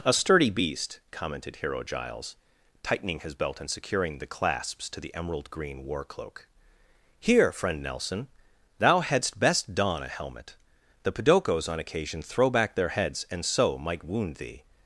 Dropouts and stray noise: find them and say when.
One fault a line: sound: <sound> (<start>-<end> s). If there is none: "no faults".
no faults